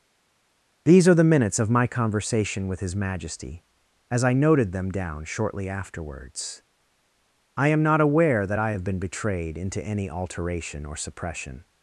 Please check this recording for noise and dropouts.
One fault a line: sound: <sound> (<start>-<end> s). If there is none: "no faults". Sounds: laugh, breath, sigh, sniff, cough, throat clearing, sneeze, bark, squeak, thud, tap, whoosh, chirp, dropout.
no faults